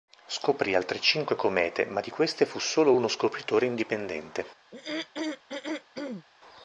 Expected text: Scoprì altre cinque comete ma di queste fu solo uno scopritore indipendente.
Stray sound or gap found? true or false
true